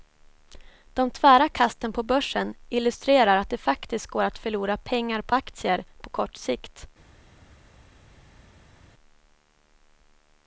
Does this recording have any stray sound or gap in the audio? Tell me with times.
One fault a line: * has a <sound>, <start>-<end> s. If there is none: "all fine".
all fine